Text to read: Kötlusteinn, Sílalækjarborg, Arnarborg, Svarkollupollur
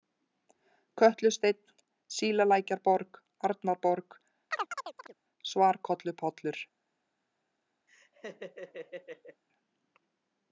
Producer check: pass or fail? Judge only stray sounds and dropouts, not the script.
fail